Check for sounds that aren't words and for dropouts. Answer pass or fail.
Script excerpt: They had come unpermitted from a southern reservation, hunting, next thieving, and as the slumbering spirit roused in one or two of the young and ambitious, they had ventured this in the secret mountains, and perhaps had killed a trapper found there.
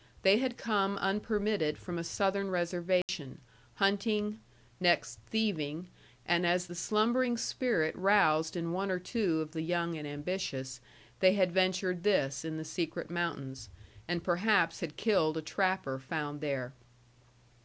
fail